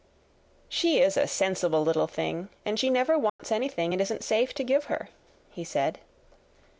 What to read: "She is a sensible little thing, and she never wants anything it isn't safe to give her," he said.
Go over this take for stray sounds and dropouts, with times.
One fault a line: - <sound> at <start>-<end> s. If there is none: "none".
- dropout at 3.3-3.4 s